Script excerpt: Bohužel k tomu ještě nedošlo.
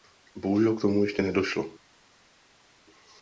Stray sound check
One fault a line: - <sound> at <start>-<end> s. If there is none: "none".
none